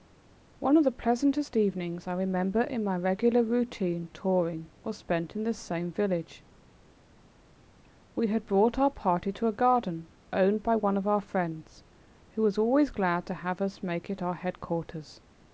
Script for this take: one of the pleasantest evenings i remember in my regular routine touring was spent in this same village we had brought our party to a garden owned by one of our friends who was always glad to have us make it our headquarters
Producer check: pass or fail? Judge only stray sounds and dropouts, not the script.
pass